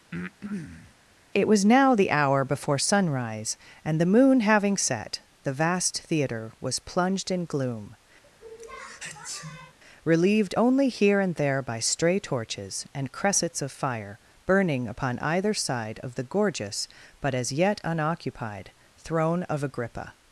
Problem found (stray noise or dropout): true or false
true